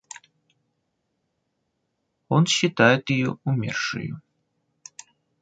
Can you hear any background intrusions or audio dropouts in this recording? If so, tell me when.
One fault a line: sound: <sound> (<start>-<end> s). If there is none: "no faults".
no faults